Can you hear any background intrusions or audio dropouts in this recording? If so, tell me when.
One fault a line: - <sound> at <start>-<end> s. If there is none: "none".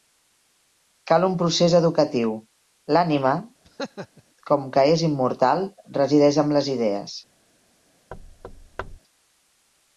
- laugh at 3.6-4.2 s
- thud at 8.1-9.0 s